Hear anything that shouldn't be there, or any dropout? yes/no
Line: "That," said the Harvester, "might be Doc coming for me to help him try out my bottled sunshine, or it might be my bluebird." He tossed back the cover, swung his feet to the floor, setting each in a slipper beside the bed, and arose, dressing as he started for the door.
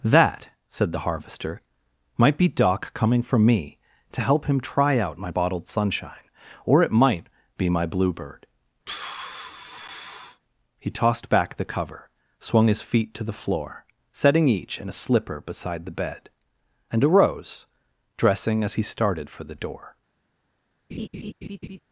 yes